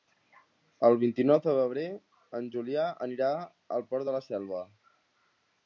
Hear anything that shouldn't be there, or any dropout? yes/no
no